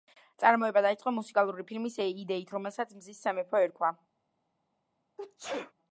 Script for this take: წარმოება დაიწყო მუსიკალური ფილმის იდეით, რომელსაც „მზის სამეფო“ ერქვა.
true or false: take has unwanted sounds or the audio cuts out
true